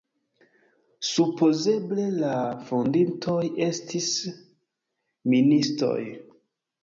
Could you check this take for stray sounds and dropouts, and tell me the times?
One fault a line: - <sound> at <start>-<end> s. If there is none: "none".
none